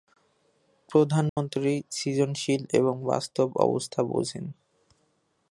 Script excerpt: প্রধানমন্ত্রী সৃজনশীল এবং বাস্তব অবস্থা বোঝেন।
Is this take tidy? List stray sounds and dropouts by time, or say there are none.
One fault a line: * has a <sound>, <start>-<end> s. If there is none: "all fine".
* has a dropout, 1.3-1.4 s